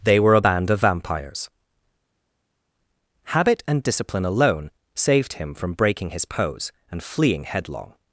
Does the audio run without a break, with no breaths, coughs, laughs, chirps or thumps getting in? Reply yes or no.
yes